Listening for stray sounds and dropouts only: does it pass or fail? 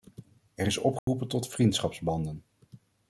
fail